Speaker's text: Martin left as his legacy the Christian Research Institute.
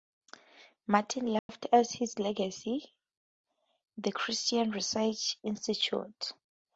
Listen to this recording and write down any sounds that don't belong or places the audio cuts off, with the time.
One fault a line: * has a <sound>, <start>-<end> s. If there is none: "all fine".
* has a dropout, 1.4-1.5 s